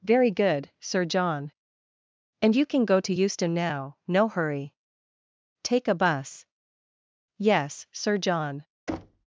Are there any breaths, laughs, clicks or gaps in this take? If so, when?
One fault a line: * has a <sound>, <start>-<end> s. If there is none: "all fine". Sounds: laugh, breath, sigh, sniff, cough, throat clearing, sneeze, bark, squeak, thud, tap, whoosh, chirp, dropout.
* has a thud, 8.9-9.3 s